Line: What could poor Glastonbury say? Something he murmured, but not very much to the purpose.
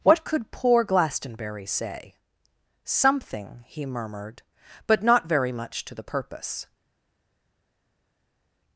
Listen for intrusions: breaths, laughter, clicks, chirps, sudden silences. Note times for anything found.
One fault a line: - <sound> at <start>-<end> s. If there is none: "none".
none